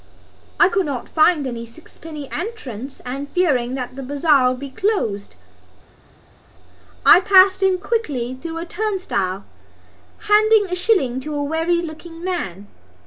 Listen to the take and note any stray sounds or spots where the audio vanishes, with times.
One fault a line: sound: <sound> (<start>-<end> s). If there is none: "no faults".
no faults